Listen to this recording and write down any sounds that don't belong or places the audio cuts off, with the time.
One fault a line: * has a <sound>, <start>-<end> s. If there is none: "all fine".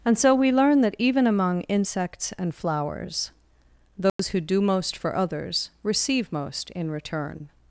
* has a dropout, 4.1-4.2 s